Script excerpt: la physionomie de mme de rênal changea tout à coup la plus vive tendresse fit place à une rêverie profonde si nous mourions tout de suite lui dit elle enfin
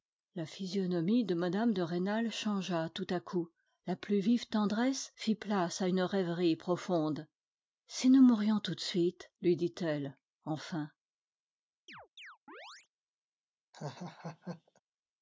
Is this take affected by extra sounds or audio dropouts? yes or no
yes